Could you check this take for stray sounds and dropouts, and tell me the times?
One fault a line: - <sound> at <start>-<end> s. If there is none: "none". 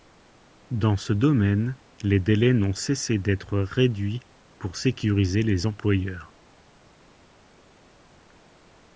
none